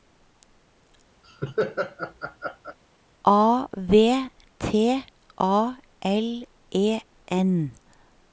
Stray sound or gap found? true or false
true